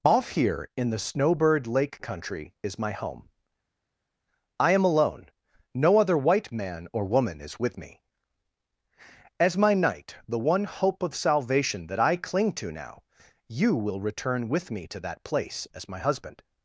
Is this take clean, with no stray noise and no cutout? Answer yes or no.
yes